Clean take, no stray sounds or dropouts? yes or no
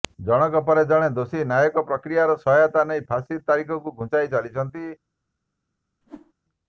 no